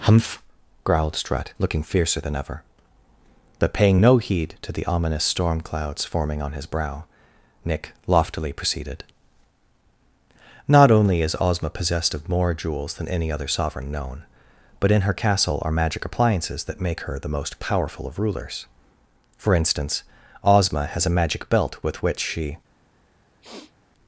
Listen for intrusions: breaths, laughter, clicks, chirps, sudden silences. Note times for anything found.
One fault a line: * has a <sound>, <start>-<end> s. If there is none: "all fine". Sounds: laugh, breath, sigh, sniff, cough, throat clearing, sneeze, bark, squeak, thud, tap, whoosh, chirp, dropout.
* has a sniff, 23.4-23.7 s